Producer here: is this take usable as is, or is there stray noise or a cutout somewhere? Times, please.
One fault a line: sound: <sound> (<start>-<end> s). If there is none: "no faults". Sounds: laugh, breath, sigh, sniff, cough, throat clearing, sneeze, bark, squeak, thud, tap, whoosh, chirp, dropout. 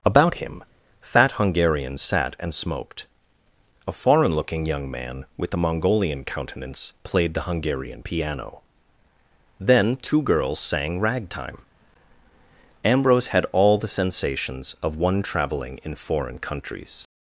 no faults